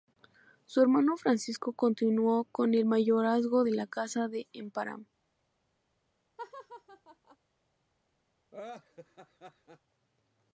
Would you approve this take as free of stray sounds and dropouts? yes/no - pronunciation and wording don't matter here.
no